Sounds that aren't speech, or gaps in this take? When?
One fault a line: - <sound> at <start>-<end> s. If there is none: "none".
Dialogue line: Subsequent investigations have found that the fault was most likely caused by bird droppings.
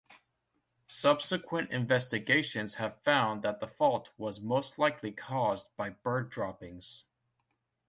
none